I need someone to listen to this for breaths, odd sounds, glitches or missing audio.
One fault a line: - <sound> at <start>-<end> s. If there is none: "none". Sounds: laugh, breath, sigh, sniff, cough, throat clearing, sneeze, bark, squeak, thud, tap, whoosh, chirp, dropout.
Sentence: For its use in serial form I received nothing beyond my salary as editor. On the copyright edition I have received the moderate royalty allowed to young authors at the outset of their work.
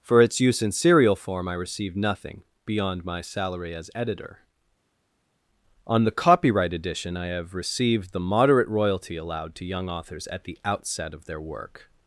none